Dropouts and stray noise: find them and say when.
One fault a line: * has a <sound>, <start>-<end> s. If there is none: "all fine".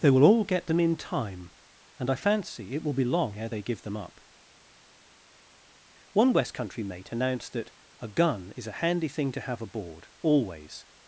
all fine